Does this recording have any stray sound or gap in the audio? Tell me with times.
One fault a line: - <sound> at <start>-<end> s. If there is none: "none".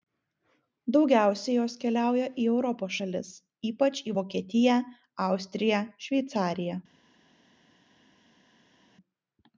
none